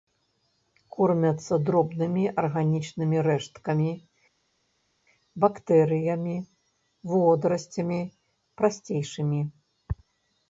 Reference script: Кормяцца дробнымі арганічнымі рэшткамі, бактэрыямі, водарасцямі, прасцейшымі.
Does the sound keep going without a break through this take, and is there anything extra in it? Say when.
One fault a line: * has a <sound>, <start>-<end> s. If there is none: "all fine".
all fine